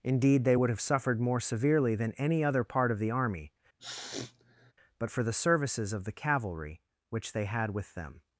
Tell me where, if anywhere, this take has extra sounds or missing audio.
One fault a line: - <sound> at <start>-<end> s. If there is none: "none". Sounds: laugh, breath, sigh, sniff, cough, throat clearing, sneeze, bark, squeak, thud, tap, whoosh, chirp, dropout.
- sniff at 3.8-4.7 s